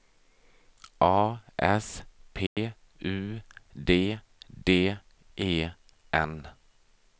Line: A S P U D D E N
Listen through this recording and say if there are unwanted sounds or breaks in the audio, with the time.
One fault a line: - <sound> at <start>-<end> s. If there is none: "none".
- dropout at 2.5-2.6 s